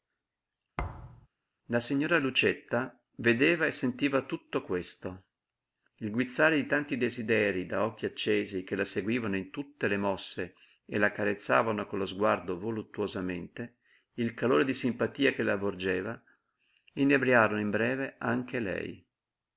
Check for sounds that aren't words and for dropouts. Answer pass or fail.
fail